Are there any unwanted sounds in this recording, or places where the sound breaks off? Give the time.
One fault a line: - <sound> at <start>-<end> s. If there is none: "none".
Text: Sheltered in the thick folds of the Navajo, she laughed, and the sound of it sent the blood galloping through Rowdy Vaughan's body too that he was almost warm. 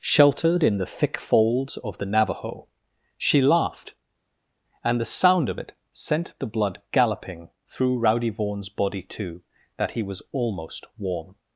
none